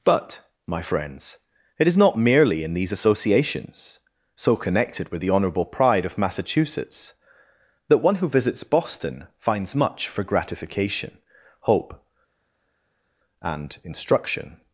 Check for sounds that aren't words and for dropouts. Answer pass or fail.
pass